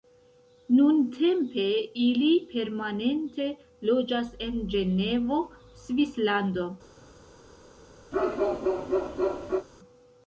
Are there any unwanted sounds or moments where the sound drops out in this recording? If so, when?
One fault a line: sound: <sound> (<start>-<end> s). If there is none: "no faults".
sound: bark (8.1-9.7 s)